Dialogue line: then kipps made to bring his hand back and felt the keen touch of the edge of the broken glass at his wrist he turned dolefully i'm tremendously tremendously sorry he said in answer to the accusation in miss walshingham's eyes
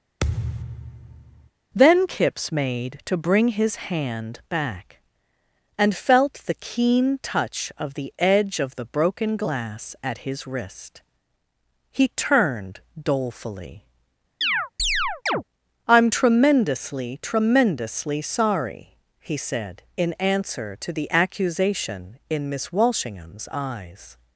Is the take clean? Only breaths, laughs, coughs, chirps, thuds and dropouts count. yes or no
no